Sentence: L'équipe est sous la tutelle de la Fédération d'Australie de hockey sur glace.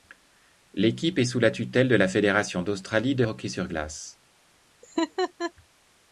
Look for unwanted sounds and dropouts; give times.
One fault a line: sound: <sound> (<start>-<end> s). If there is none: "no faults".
sound: laugh (4.8-5.5 s)